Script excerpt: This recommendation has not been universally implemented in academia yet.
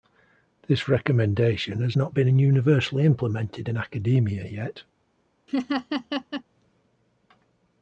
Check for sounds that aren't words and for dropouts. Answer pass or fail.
fail